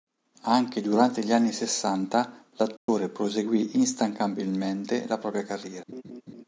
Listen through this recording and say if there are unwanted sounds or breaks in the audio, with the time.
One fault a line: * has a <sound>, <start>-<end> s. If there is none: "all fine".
* has a dropout, 2.8-2.9 s
* has a laugh, 5.9-6.4 s